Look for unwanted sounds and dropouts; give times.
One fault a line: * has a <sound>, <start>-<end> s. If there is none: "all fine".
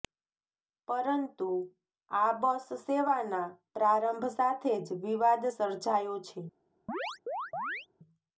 * has a chirp, 6.9-7.9 s